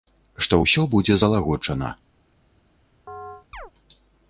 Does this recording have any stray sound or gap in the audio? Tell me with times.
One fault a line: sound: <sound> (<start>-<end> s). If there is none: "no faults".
sound: chirp (3.1-3.7 s)